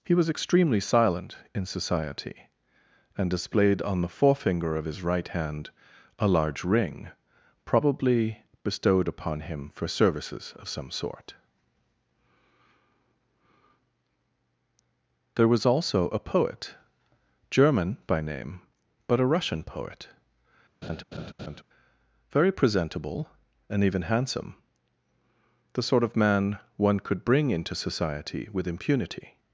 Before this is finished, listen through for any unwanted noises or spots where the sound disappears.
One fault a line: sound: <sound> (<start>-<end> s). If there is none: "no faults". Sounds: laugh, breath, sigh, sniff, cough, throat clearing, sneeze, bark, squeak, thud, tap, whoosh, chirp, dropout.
sound: laugh (20.8-21.6 s)